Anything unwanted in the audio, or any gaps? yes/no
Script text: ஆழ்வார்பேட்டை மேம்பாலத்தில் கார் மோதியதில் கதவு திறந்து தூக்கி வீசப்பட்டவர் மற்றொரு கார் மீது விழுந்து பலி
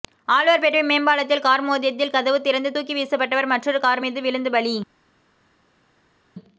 no